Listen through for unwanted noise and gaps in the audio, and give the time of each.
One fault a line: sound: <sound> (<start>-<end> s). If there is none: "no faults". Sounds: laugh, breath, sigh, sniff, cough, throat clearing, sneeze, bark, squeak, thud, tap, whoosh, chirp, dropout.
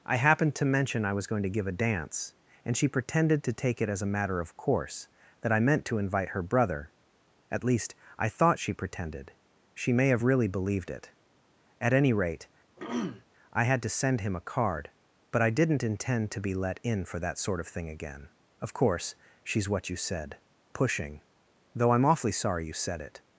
sound: throat clearing (12.8-13.2 s)